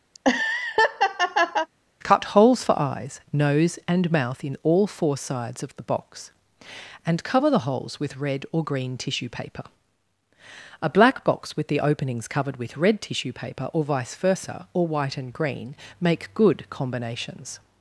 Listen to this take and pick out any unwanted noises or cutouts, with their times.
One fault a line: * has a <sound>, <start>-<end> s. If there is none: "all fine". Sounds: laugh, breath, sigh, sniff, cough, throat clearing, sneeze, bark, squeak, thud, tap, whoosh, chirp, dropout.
* has a laugh, 0.1-1.7 s